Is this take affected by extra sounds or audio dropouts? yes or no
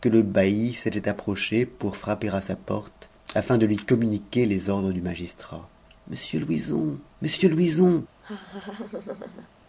yes